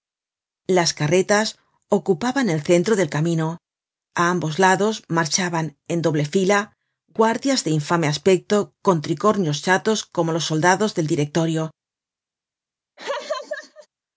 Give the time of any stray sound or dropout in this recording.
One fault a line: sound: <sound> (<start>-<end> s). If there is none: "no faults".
sound: laugh (13.0-13.9 s)